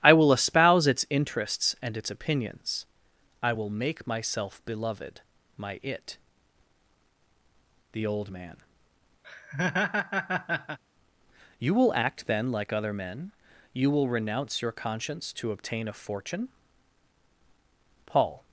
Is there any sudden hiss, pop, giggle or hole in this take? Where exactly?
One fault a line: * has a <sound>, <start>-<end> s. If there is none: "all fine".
* has a laugh, 9.2-10.8 s